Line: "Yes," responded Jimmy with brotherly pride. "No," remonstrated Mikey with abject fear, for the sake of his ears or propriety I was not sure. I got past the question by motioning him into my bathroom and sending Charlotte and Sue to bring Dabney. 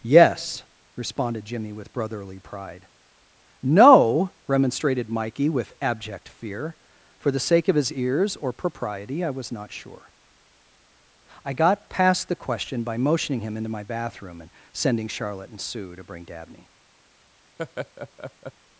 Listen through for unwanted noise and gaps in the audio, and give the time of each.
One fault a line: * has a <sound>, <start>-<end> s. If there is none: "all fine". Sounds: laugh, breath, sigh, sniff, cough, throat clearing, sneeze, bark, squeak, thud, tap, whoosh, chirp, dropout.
* has a laugh, 17.6-18.5 s